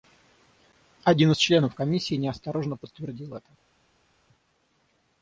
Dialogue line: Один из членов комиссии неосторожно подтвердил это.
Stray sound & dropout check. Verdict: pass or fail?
pass